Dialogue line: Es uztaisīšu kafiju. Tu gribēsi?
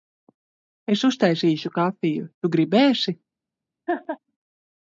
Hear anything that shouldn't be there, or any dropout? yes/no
yes